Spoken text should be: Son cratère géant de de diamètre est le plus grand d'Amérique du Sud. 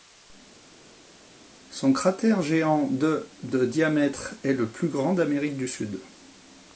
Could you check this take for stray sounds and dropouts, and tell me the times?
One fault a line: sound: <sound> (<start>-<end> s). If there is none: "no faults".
no faults